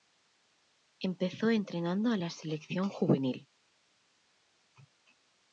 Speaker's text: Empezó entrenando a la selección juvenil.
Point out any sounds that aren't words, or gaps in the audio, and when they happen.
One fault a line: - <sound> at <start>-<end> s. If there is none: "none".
none